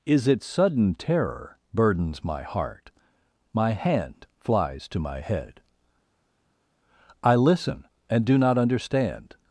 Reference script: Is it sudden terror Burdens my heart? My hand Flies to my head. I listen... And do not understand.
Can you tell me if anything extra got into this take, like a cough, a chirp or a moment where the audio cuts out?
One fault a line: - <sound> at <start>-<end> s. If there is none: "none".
none